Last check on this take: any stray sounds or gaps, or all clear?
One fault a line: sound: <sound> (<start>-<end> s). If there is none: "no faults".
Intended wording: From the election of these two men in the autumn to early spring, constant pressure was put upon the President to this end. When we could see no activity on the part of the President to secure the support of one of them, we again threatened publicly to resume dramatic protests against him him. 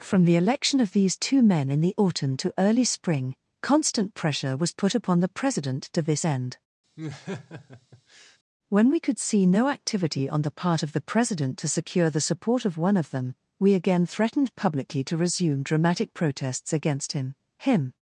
sound: laugh (7.0-8.4 s)